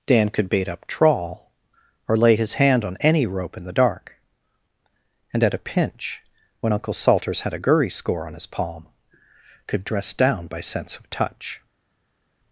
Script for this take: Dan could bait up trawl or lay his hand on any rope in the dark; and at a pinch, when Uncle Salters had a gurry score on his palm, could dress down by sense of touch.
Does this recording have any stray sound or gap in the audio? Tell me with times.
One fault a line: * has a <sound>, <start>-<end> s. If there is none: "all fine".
all fine